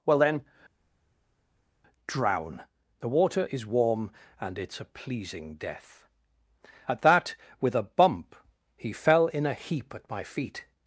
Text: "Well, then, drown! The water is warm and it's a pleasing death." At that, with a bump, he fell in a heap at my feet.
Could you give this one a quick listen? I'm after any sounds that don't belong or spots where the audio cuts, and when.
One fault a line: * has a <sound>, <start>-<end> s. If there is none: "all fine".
all fine